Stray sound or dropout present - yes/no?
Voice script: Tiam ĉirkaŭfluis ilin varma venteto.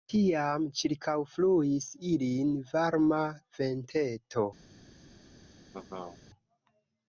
yes